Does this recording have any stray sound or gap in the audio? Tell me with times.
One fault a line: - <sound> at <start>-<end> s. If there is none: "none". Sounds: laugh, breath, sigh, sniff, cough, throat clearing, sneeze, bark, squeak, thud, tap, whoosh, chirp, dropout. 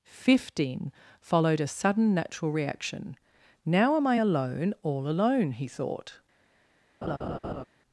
- laugh at 7.0-7.6 s